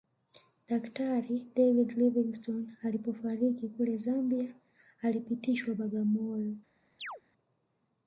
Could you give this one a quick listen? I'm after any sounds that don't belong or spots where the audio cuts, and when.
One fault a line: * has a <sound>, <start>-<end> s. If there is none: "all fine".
* has a chirp, 7.0-7.2 s